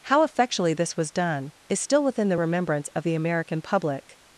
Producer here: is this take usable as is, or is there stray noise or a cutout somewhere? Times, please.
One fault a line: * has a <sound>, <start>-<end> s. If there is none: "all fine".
all fine